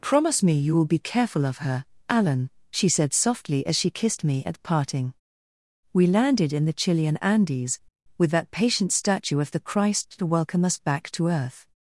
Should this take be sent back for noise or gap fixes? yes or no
no